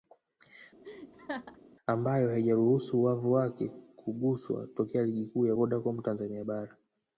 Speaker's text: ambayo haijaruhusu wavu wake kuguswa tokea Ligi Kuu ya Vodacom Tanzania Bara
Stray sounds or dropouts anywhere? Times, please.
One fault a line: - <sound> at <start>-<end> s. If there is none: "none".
- laugh at 0.8-1.6 s